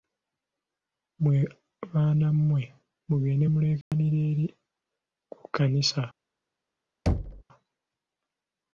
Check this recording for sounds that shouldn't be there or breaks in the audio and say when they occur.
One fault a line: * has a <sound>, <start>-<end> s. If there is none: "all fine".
* has a dropout, 3.8-3.9 s
* has a thud, 7.1-7.4 s